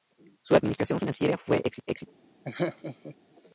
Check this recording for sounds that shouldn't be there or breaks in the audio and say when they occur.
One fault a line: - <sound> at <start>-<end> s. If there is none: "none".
- laugh at 2.4-3.2 s